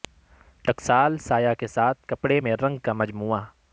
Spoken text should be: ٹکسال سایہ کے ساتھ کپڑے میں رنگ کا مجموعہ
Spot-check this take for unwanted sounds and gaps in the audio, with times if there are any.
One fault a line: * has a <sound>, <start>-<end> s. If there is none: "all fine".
all fine